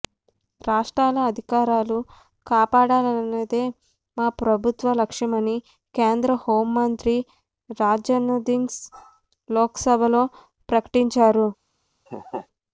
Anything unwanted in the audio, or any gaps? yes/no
yes